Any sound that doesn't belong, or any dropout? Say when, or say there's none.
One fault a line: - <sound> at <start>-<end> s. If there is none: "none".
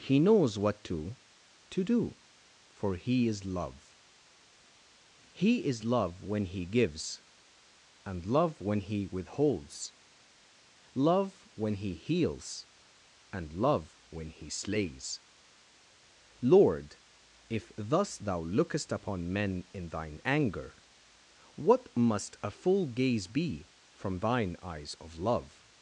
none